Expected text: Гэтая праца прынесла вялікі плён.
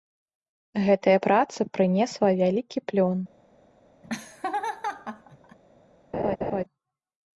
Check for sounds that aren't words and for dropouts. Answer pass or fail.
fail